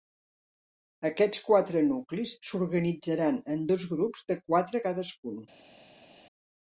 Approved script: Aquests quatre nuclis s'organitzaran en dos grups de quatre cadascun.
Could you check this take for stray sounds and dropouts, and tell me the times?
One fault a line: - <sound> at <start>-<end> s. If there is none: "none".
none